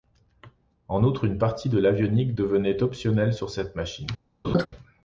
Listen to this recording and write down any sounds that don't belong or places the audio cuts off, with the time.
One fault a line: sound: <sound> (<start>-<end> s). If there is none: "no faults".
sound: laugh (4.4-4.7 s)